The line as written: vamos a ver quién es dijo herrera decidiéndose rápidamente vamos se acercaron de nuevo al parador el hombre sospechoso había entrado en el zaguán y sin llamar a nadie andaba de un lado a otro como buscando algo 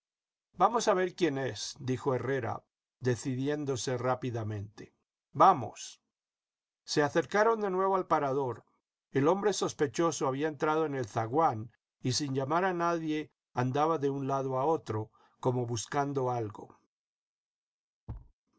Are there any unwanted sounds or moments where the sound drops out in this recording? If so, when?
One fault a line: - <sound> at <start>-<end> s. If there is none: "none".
- thud at 18.1-18.3 s